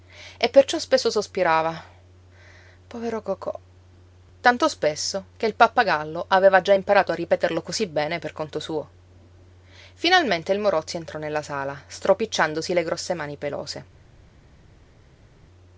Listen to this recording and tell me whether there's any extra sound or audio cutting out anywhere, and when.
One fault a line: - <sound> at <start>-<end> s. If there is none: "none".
none